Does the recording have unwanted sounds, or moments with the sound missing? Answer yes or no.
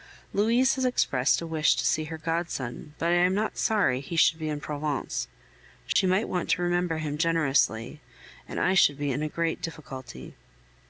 yes